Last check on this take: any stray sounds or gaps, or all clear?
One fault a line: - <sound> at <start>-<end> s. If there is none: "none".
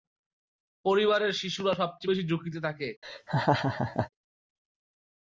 - laugh at 3.0-4.1 s